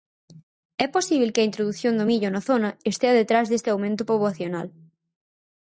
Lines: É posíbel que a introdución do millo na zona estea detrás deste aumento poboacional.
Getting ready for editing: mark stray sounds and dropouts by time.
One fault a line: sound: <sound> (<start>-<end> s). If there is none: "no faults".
no faults